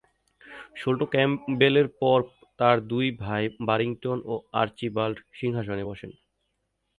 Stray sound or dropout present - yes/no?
no